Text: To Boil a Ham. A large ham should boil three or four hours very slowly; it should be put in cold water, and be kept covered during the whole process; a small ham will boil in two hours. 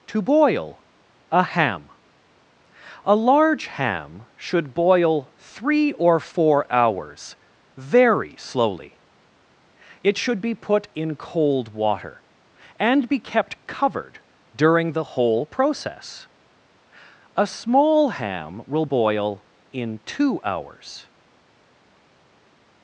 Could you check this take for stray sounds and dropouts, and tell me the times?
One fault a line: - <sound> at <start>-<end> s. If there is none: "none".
none